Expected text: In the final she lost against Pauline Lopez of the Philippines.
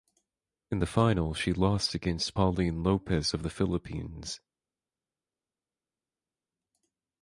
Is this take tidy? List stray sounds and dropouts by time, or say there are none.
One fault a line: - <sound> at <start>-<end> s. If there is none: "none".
none